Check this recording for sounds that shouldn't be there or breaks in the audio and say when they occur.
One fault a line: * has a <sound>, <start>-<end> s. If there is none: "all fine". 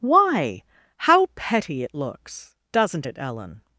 all fine